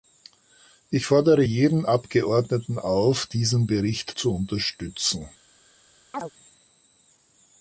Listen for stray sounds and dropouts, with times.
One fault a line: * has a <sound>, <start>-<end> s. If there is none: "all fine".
* has a chirp, 6.1-6.3 s